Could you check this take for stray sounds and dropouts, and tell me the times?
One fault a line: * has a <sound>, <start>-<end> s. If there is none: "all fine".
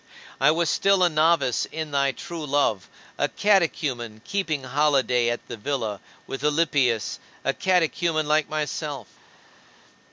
all fine